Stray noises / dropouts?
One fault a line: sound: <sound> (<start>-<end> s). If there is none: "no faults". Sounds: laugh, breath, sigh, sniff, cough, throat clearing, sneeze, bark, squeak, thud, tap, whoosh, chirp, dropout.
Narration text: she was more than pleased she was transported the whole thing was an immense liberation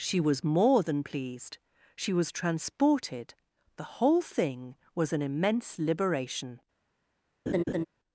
sound: laugh (7.5-7.9 s)